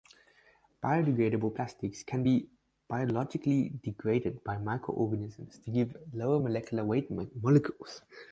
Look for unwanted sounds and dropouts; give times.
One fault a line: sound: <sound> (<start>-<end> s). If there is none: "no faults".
no faults